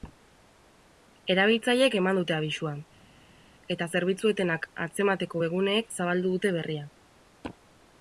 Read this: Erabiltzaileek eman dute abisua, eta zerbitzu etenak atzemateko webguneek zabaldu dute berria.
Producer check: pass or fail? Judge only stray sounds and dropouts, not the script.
pass